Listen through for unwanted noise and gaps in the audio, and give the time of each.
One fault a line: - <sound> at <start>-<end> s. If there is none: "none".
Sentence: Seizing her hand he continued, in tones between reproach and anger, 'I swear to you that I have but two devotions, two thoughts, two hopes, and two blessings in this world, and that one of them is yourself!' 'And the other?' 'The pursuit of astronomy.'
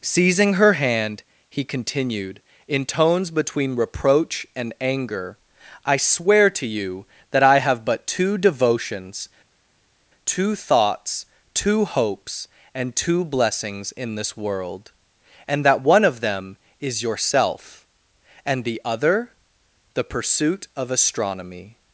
none